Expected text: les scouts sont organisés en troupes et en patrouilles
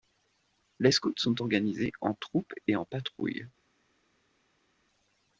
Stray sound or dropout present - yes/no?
no